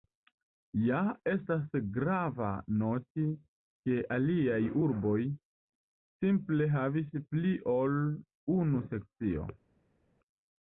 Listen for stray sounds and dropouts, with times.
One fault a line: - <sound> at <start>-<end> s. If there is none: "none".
none